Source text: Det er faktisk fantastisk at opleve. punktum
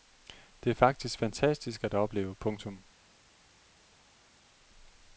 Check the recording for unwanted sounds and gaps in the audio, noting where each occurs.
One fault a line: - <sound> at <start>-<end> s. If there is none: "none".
none